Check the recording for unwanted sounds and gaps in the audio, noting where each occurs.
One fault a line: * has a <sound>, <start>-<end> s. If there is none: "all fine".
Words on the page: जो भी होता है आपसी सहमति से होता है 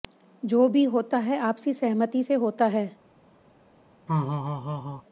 * has a laugh, 4.1-5.0 s